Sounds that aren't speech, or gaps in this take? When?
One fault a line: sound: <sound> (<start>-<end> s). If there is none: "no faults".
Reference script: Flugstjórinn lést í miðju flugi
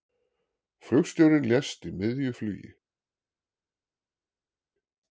no faults